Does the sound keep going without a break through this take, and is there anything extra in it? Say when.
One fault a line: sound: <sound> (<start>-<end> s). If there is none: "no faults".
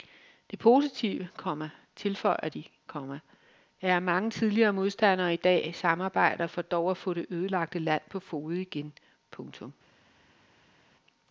no faults